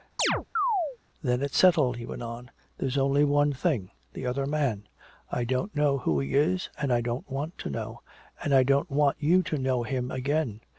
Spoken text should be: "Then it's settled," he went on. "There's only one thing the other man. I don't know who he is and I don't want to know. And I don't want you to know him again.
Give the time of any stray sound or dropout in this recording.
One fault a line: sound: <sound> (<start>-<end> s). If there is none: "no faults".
sound: chirp (0.2-1.0 s)